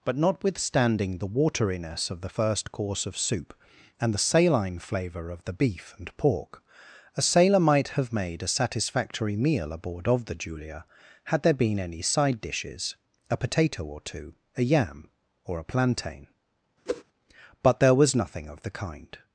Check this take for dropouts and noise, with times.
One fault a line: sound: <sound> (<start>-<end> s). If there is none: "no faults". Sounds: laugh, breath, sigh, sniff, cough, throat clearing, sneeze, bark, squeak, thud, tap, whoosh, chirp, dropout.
sound: whoosh (16.9-17.0 s)